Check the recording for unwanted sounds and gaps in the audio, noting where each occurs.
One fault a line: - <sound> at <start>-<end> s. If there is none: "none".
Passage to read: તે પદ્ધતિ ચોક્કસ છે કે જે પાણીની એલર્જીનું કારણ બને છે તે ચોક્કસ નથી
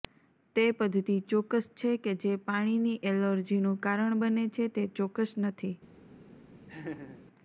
- laugh at 6.7-7.2 s